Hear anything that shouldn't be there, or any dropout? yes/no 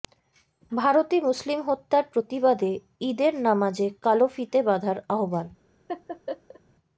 yes